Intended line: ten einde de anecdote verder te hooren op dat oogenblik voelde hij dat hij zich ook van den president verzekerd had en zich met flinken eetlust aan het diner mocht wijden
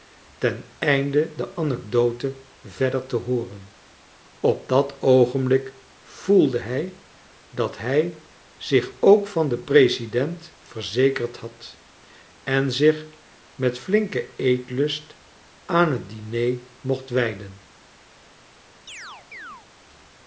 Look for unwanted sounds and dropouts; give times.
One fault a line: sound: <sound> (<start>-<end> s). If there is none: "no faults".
sound: chirp (18.9-19.7 s)